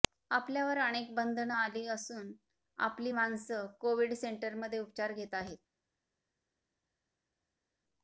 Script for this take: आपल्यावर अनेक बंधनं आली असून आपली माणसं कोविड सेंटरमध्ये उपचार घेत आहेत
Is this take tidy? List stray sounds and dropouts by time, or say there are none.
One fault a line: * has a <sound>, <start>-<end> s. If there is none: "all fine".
all fine